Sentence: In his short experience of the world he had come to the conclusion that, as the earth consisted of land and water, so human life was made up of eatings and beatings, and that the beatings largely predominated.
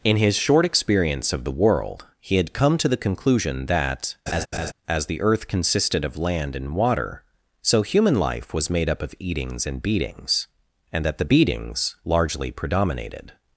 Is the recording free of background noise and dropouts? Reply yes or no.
no